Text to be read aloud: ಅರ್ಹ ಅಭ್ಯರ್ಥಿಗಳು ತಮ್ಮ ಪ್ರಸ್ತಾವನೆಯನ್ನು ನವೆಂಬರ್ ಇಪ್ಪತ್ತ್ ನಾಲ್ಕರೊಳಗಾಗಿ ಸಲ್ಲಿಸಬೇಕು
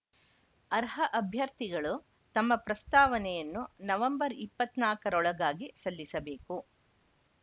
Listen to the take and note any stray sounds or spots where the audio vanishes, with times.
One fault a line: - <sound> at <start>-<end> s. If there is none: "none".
none